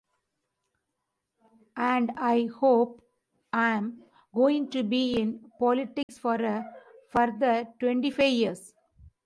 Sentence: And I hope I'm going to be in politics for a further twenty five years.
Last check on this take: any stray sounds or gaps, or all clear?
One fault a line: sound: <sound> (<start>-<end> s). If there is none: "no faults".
sound: dropout (6.0-6.1 s)